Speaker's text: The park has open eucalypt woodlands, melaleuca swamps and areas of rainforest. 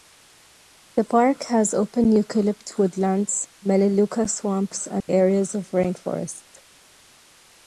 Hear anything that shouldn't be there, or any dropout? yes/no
yes